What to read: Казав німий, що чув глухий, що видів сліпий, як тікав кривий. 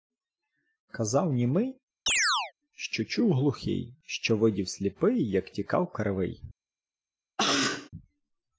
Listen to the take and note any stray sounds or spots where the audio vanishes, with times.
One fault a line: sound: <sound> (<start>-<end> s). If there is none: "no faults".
sound: chirp (2.1-2.5 s)
sound: cough (7.4-7.9 s)